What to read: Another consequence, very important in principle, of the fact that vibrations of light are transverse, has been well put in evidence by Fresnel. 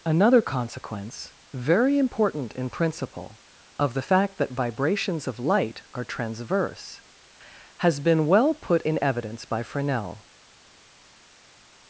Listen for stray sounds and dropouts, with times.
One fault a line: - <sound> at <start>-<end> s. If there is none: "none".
none